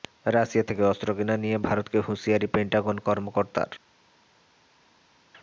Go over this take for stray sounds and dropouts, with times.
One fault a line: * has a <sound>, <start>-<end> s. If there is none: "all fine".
all fine